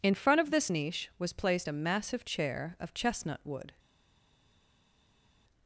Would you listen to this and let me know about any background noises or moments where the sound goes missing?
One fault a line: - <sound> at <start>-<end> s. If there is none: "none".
none